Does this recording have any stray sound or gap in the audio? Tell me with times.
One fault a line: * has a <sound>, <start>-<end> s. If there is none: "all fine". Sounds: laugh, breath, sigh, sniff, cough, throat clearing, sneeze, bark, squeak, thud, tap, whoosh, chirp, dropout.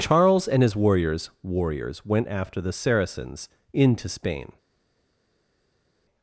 all fine